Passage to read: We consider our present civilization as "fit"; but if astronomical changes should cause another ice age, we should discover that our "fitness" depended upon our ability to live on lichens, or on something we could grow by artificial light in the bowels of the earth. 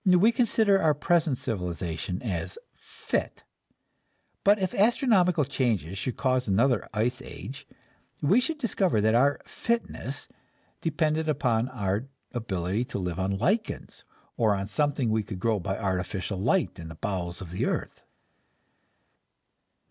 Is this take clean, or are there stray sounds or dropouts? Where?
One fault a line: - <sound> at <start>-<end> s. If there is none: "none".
none